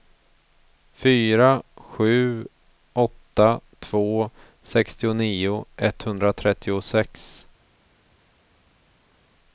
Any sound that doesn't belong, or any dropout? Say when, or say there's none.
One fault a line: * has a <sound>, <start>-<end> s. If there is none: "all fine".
all fine